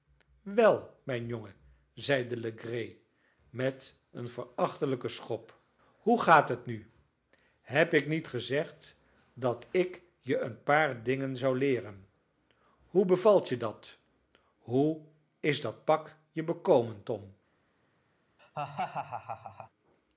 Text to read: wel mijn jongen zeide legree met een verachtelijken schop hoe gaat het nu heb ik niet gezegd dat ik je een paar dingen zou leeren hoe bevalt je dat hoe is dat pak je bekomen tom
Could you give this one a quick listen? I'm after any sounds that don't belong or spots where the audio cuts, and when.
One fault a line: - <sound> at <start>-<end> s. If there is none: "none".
- laugh at 18.4-19.7 s